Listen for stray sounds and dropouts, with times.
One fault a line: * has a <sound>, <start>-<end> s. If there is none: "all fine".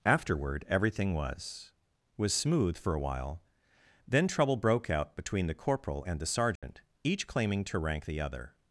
* has a dropout, 6.6-6.6 s